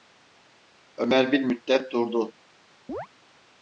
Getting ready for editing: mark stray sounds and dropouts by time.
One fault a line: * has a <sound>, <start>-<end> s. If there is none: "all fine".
* has a chirp, 2.9-3.1 s